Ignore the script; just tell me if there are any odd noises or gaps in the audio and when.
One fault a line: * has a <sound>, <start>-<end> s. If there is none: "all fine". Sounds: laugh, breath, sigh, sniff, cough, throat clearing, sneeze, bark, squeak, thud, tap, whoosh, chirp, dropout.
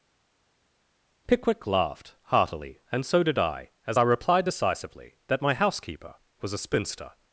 all fine